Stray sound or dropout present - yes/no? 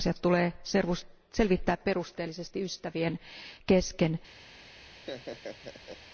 yes